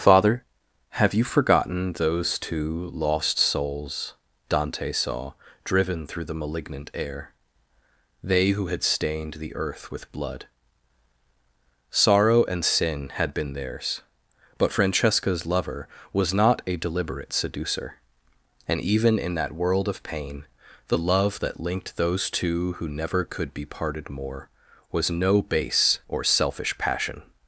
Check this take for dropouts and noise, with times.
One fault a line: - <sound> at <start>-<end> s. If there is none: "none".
none